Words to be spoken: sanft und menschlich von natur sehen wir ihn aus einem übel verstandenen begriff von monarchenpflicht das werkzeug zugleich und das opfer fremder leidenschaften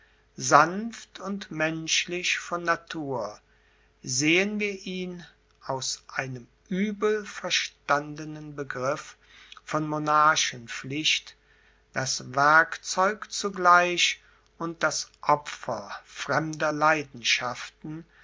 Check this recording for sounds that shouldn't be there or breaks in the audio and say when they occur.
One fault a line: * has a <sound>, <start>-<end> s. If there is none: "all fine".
all fine